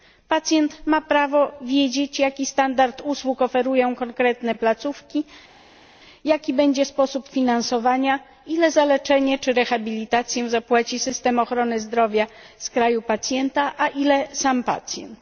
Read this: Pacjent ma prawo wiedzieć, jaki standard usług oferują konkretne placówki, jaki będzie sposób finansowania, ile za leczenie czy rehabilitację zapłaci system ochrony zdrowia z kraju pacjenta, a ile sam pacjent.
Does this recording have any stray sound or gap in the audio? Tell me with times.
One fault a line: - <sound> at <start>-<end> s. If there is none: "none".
none